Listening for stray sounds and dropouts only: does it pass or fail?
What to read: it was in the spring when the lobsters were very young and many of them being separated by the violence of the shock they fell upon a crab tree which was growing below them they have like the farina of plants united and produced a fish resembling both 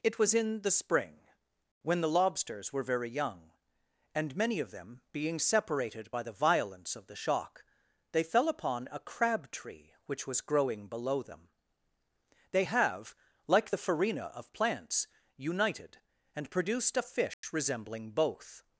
fail